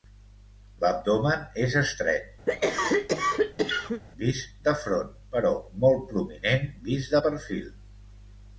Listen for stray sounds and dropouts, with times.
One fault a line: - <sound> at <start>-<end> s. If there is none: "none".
- cough at 2.5-4.0 s